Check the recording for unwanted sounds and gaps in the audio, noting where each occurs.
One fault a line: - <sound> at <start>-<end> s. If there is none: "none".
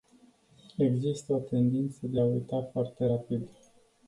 none